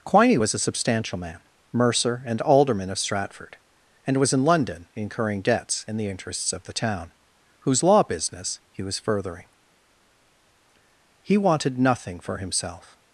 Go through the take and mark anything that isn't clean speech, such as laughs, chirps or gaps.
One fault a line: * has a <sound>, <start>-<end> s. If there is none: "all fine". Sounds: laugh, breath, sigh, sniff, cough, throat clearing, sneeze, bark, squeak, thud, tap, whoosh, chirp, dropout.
all fine